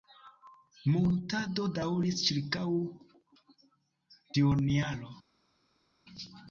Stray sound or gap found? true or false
false